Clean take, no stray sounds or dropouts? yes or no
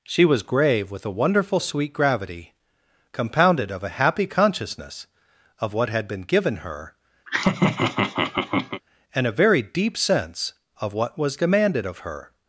no